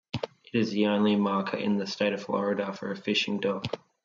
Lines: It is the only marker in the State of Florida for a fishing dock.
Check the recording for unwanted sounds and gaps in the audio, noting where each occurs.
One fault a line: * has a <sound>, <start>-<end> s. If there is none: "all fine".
all fine